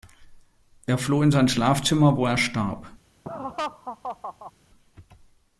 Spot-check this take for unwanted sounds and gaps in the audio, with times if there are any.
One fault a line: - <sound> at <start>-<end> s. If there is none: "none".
- laugh at 3.2-4.5 s